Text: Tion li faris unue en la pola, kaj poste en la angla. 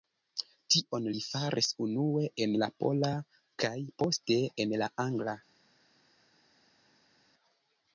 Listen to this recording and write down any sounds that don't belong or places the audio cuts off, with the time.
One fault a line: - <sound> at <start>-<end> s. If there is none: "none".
none